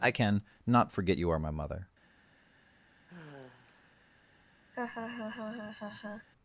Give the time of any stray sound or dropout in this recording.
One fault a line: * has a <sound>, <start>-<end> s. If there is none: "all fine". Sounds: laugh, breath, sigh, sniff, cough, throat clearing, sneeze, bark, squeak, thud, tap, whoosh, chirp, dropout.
* has a sigh, 3.1-4.1 s
* has a laugh, 4.7-6.3 s